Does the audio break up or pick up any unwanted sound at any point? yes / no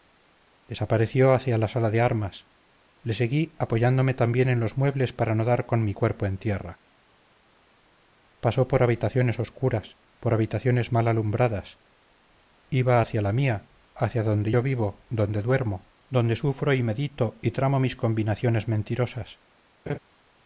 yes